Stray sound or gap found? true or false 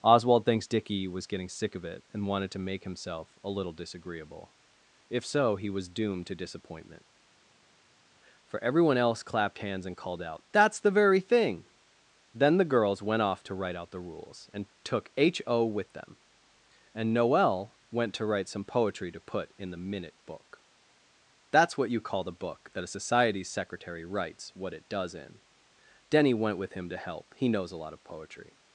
false